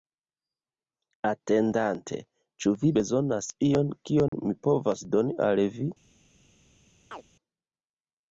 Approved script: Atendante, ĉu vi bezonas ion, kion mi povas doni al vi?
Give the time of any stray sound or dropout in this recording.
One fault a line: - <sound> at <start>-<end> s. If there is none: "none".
- dropout at 4.3-4.3 s
- chirp at 7.1-7.2 s